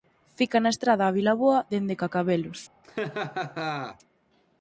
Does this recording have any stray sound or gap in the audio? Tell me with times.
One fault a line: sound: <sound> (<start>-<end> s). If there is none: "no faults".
sound: laugh (2.8-4.0 s)